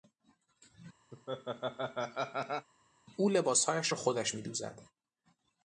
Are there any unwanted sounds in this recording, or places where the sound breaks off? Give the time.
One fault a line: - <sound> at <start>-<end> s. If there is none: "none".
- laugh at 1.1-2.7 s